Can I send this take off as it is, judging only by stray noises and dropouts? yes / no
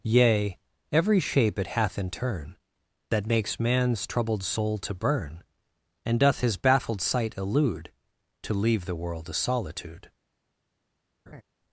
no